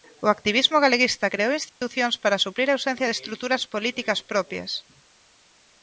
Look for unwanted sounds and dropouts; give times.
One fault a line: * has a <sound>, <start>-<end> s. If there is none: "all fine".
* has a dropout, 1.7-1.8 s